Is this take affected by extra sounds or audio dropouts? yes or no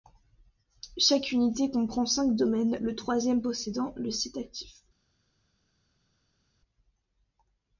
no